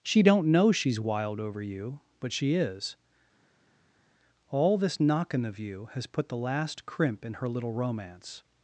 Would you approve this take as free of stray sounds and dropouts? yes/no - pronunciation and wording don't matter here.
yes